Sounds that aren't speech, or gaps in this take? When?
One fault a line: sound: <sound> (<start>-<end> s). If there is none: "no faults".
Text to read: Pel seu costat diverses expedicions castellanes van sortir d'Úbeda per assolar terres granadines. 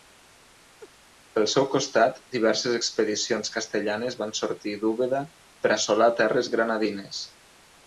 sound: laugh (0.8-0.9 s)